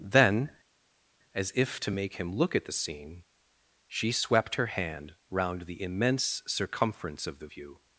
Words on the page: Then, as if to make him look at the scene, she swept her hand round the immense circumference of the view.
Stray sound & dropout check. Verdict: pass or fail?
pass